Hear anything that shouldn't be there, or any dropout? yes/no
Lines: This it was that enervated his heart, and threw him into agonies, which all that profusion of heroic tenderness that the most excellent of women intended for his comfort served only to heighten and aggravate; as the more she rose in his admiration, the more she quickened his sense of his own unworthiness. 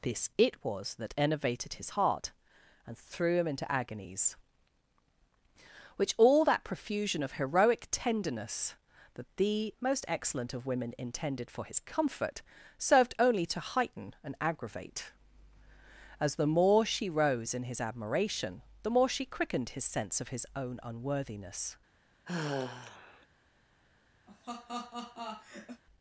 yes